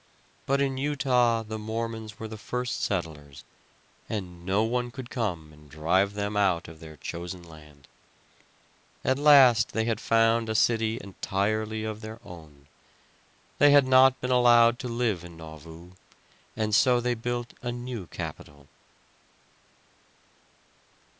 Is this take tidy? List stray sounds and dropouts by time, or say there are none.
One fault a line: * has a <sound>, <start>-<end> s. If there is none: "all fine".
all fine